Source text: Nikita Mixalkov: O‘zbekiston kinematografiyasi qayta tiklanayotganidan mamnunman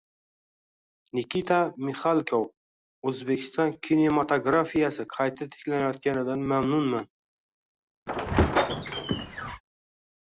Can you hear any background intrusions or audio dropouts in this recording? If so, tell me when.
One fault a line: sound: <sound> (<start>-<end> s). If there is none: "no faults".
sound: squeak (8.1-9.6 s)